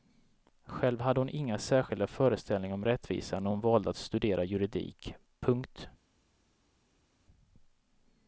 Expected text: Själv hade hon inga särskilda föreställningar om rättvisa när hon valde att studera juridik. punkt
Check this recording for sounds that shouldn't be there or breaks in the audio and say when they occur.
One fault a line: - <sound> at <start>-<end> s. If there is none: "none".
none